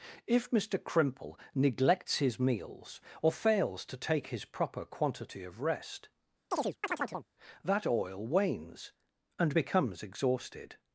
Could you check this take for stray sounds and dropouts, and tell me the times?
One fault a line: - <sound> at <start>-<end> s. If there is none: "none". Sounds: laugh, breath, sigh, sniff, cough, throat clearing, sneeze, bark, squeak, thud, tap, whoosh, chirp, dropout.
- chirp at 6.5-7.3 s